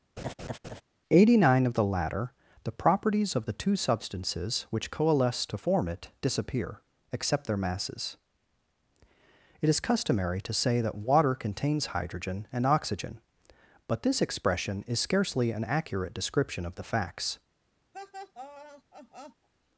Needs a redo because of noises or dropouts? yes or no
yes